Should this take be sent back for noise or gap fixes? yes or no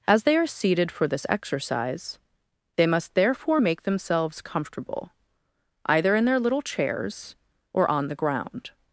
no